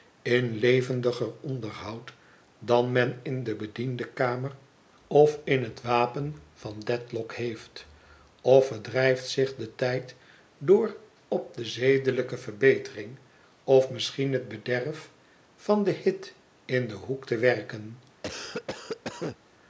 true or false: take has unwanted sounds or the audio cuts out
true